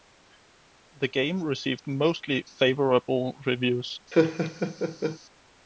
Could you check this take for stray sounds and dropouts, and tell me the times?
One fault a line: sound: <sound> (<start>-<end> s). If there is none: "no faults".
sound: laugh (4.1-5.2 s)